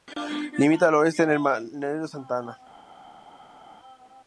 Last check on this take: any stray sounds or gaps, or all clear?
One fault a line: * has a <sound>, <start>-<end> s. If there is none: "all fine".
all fine